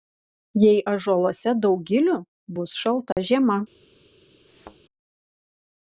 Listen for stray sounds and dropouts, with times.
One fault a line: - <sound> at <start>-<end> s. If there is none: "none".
- dropout at 3.1-3.2 s
- thud at 4.5-4.8 s